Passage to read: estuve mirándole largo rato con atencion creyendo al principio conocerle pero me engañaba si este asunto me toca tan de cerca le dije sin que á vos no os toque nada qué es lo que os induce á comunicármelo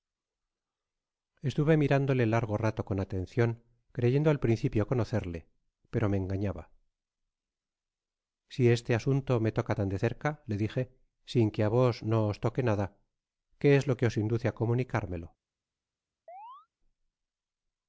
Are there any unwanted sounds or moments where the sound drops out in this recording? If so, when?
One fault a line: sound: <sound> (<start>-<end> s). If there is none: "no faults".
sound: chirp (16.3-16.7 s)